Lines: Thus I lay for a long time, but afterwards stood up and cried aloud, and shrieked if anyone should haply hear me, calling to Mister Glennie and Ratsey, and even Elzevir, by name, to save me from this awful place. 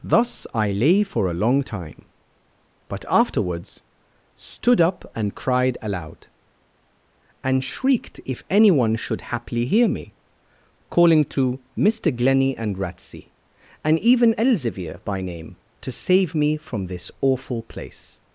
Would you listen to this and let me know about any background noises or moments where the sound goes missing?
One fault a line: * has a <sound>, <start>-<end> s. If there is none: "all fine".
all fine